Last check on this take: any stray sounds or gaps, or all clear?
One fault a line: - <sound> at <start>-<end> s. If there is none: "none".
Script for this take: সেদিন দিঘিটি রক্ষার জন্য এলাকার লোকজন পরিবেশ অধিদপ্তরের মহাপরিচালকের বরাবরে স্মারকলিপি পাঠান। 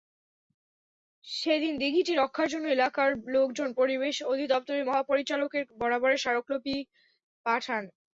none